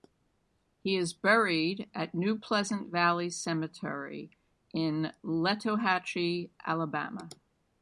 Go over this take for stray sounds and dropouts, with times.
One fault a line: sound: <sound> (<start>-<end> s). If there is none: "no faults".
no faults